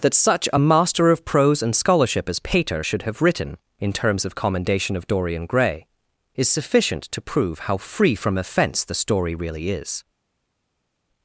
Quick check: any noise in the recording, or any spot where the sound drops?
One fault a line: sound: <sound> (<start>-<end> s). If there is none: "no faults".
no faults